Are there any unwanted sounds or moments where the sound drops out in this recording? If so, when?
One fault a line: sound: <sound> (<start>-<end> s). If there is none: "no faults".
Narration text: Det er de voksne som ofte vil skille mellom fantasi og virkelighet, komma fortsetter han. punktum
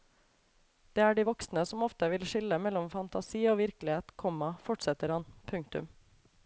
no faults